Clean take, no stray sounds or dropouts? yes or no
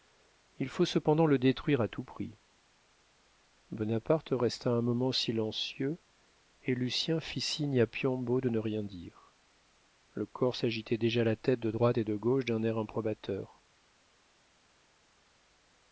yes